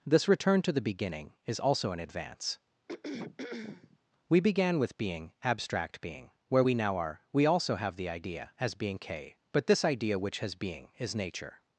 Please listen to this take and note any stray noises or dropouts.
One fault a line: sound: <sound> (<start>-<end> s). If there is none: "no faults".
sound: throat clearing (2.9-4.0 s)